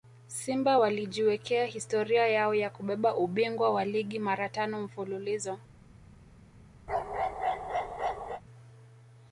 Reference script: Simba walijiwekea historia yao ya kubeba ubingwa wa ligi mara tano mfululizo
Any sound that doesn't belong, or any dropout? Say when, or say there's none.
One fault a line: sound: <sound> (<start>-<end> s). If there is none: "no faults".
sound: bark (6.9-8.4 s)